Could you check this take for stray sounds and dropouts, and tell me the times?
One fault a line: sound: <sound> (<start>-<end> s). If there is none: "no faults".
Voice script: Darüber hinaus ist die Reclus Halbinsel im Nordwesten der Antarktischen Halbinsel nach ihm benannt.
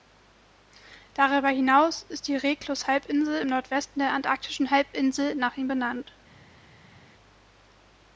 no faults